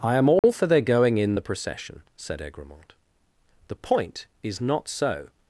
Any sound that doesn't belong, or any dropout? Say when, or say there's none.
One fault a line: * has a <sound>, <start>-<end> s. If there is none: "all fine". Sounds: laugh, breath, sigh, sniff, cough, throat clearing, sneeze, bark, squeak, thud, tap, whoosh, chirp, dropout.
* has a dropout, 0.4-0.4 s